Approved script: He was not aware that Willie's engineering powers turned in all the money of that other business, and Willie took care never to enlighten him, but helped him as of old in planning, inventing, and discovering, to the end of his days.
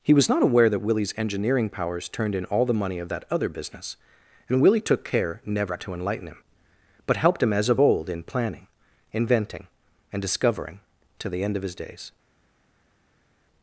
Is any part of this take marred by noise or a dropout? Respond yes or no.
no